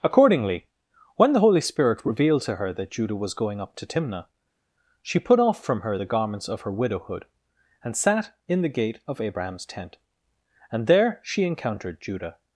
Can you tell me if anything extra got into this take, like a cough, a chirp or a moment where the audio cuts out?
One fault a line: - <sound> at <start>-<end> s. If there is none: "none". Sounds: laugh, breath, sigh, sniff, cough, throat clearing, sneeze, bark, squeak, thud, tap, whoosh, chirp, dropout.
none